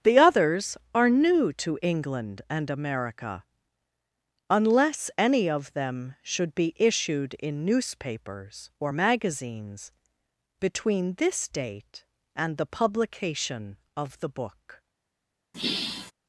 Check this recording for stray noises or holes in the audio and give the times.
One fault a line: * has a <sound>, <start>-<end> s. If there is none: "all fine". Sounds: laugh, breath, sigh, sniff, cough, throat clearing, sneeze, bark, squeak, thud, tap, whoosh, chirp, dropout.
* has a sigh, 15.5-16.1 s